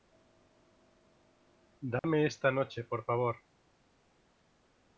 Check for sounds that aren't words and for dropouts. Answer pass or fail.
fail